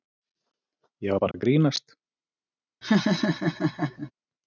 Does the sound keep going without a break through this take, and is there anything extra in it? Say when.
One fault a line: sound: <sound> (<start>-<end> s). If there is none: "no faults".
sound: dropout (1.3-1.3 s)
sound: laugh (2.8-4.1 s)